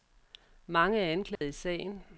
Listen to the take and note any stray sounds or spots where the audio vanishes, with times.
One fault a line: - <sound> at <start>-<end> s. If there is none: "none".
- dropout at 1.4-1.4 s